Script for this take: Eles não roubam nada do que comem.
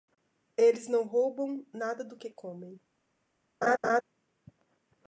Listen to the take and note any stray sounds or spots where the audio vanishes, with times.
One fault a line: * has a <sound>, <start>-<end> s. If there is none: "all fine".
* has a laugh, 3.6-4.0 s